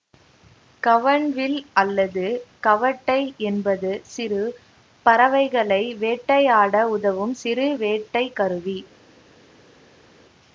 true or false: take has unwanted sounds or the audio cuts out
false